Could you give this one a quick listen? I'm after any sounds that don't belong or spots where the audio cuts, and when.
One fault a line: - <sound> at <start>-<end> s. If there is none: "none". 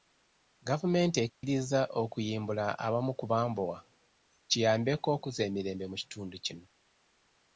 - dropout at 1.3-1.4 s